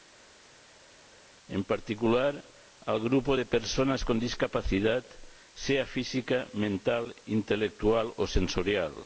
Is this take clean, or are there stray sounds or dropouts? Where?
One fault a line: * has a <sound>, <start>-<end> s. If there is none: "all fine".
all fine